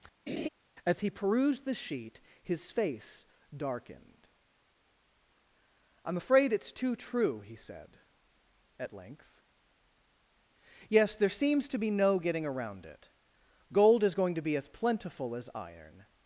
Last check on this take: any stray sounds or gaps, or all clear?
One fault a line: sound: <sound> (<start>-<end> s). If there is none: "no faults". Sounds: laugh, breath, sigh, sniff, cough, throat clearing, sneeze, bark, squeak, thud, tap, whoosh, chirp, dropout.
sound: laugh (0.3-0.5 s)